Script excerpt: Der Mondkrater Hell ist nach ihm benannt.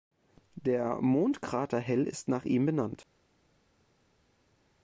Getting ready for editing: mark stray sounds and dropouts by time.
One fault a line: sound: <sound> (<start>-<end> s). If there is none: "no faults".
no faults